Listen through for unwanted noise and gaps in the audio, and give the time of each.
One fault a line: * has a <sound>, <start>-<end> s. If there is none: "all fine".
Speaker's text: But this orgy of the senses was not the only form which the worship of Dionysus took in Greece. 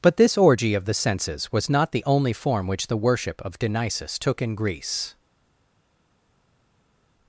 all fine